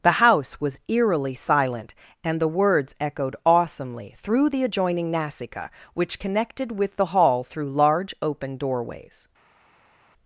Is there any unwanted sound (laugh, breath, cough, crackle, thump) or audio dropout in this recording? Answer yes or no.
no